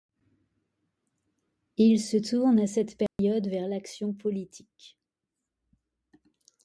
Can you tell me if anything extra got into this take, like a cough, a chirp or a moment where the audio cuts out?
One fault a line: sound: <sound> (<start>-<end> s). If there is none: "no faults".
sound: dropout (3.1-3.2 s)